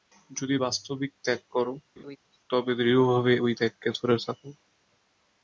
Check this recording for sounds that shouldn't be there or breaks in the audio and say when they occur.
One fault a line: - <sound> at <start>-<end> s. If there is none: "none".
- laugh at 2.0-2.2 s